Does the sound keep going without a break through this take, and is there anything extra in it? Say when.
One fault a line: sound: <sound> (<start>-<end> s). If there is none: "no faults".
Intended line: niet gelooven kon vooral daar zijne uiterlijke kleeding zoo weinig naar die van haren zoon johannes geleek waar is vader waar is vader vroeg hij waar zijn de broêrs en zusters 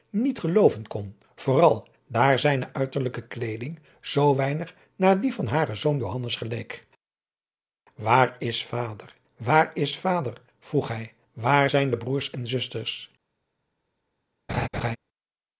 sound: laugh (14.5-15.0 s)